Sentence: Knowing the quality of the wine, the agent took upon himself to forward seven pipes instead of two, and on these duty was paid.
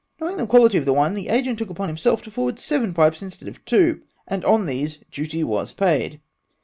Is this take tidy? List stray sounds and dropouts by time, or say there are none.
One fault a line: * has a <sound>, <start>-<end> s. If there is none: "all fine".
all fine